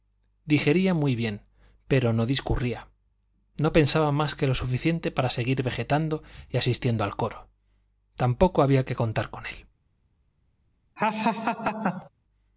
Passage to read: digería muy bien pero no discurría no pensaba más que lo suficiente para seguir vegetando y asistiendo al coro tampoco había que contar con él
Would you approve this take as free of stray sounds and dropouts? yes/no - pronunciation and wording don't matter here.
no